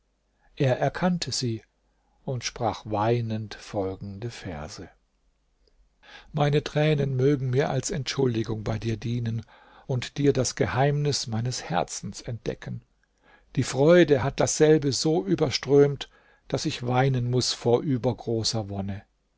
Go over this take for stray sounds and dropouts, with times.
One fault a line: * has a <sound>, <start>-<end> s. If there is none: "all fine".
all fine